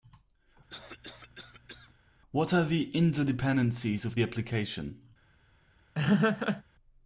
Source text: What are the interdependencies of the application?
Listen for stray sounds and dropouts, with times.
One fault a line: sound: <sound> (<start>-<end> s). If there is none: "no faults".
sound: cough (0.7-1.9 s)
sound: laugh (5.9-6.6 s)